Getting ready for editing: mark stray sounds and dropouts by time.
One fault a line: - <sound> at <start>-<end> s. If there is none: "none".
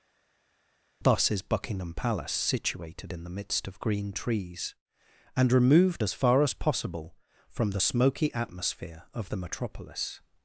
none